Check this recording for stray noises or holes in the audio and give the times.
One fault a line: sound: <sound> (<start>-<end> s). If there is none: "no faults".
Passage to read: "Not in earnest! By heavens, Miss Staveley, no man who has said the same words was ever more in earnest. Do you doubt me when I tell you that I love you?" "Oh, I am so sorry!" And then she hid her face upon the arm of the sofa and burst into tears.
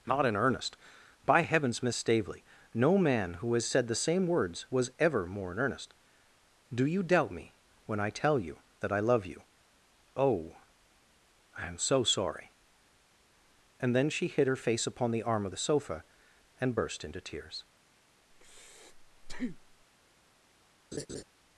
sound: breath (18.3-19.8 s)
sound: laugh (20.9-21.2 s)